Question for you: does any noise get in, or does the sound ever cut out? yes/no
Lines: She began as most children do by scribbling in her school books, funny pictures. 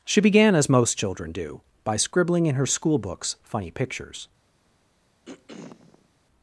yes